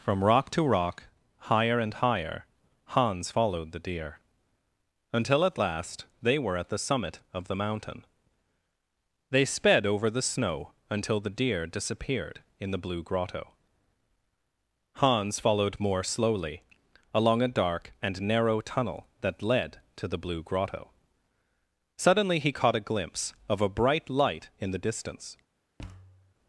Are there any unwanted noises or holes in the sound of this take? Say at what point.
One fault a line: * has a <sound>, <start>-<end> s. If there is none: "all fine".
* has a thud, 25.8-26.3 s